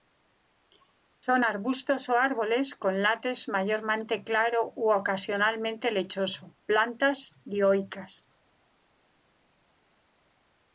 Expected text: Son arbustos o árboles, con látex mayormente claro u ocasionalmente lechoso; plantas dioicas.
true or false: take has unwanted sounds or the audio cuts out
false